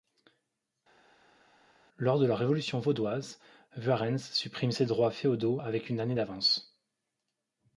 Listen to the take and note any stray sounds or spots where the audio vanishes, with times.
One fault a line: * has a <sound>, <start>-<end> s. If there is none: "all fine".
all fine